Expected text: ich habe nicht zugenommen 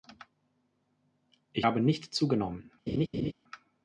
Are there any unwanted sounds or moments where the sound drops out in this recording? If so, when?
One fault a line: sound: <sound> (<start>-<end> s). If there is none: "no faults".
sound: laugh (2.9-3.3 s)